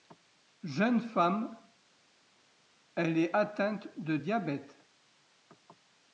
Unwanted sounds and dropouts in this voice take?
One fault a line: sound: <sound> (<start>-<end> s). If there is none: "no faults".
no faults